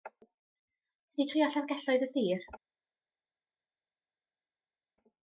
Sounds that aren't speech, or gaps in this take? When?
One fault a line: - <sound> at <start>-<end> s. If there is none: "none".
none